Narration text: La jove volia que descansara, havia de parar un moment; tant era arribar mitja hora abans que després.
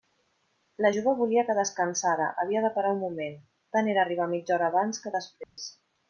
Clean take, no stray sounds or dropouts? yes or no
no